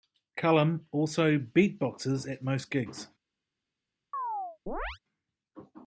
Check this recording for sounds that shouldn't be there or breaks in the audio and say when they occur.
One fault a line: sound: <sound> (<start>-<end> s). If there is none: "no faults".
sound: chirp (4.1-5.0 s)